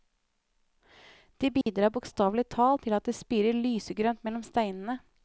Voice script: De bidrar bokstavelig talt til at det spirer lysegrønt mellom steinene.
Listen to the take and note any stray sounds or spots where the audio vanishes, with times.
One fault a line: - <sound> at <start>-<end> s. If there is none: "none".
- dropout at 1.6-1.7 s